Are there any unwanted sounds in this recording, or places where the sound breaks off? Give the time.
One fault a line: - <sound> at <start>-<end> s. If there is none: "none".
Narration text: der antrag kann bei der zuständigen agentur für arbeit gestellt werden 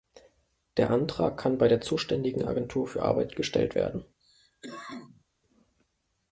- cough at 4.2-5.2 s